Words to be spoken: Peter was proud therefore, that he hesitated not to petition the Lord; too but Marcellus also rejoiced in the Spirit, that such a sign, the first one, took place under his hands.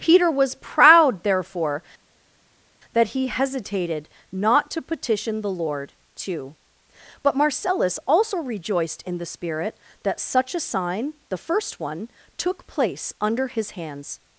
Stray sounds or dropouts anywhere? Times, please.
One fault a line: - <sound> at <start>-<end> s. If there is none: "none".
none